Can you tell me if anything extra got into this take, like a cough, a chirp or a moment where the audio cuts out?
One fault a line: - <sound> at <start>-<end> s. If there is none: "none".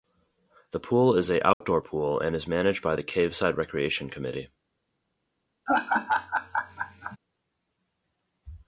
- dropout at 1.5-1.6 s
- laugh at 5.7-7.2 s